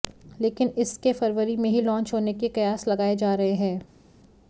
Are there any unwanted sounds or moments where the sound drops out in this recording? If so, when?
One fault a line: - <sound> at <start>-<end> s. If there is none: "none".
none